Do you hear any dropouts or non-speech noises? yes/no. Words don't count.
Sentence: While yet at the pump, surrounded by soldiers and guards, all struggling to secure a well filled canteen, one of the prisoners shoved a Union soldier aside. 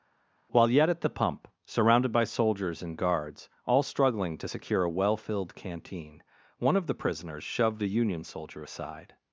no